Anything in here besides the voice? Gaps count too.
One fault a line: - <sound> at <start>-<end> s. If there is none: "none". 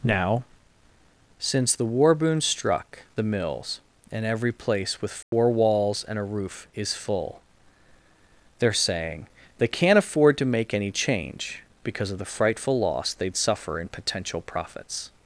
- dropout at 5.2-5.3 s